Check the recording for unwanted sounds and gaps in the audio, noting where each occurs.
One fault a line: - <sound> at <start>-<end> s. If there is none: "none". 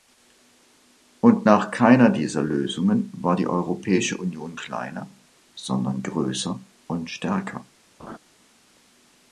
- laugh at 8.0-8.2 s